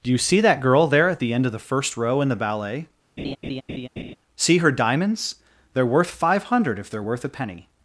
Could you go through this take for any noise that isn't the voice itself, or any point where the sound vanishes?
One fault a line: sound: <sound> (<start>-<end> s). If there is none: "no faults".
sound: laugh (3.2-4.2 s)